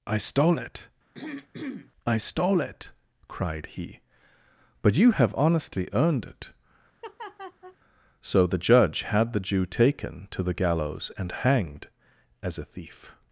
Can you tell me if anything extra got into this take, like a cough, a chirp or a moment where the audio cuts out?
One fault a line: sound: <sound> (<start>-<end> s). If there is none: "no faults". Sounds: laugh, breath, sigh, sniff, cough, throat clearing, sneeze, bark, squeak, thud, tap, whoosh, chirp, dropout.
sound: throat clearing (1.1-1.9 s)
sound: laugh (7.0-7.8 s)